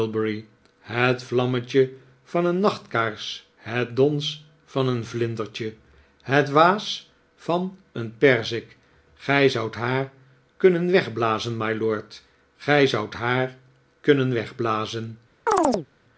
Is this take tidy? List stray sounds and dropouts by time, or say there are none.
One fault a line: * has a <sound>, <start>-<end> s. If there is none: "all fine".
* has a chirp, 15.5-15.9 s